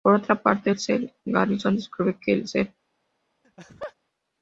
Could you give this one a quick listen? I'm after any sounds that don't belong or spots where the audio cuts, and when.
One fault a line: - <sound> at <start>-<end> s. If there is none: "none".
- laugh at 3.4-3.9 s